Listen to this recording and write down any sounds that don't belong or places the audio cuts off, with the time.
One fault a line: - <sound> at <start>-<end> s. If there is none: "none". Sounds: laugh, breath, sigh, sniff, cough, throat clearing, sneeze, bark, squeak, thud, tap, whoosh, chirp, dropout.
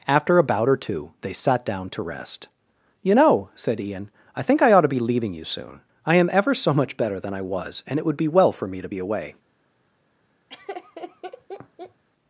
- laugh at 10.5-12.0 s